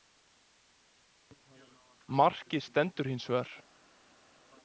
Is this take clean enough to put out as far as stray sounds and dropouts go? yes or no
yes